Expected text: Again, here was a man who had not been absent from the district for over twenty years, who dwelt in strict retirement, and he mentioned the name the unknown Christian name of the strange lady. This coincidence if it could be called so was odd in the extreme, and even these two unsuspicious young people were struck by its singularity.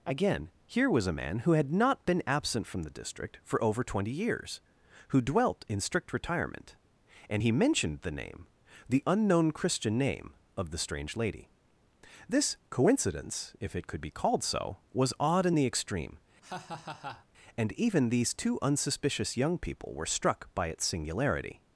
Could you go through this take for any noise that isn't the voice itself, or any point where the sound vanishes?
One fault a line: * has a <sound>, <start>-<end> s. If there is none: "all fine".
* has a laugh, 16.4-17.3 s